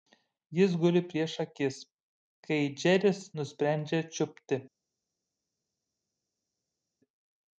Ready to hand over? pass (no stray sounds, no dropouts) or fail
pass